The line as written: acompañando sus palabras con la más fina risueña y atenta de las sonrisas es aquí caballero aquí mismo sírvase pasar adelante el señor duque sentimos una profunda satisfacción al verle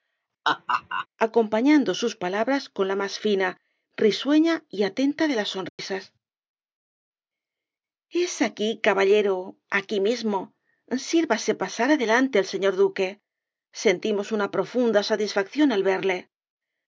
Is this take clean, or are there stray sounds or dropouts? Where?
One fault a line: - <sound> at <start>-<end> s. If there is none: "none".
- laugh at 0.4-1.1 s
- dropout at 5.7-5.8 s